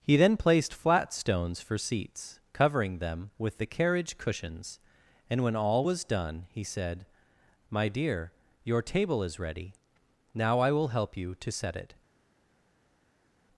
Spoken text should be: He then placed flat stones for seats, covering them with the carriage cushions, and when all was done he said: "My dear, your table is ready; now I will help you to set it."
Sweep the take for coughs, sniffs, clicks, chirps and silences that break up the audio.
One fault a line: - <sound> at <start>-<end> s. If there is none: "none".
none